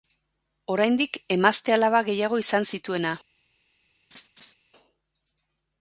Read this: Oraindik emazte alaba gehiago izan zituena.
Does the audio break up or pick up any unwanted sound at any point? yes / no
yes